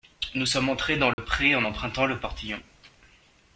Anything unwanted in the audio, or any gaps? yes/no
yes